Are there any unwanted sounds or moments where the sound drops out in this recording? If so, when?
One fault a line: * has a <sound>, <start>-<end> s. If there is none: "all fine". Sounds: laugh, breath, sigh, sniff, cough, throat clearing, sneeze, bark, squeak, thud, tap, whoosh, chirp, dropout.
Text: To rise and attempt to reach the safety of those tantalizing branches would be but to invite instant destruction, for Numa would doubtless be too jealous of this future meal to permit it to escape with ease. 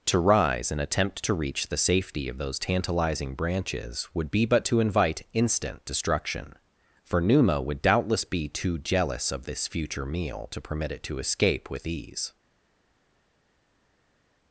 all fine